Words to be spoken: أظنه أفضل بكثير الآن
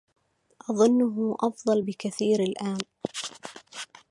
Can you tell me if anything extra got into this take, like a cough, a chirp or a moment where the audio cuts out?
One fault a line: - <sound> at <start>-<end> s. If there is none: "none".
none